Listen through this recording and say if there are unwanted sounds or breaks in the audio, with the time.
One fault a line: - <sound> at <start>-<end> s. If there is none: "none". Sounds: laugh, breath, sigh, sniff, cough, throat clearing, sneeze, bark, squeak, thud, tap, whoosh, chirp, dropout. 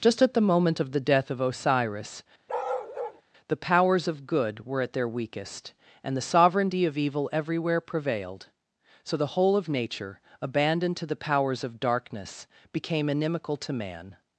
- bark at 2.5-3.2 s